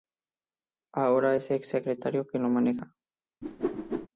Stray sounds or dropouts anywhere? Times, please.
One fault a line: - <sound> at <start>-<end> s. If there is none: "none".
- whoosh at 3.4-4.1 s